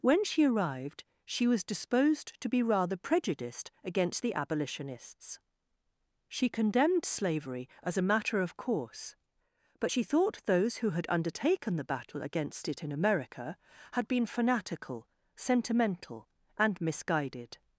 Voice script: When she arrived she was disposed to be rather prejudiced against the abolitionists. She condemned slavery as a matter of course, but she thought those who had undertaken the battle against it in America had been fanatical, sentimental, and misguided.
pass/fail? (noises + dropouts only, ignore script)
pass